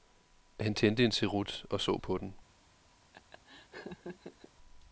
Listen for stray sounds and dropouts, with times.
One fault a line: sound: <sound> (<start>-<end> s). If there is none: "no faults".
sound: laugh (3.1-4.5 s)